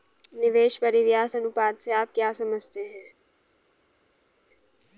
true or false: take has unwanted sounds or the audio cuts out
false